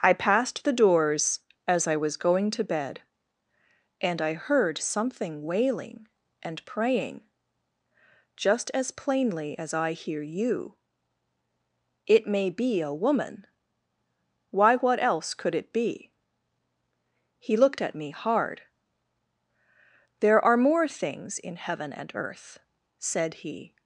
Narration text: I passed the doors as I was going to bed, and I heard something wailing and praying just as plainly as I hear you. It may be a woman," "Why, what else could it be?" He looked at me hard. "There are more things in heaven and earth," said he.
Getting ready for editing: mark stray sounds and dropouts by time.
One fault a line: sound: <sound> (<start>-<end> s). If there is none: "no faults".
no faults